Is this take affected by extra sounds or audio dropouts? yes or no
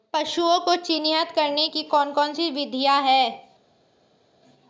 no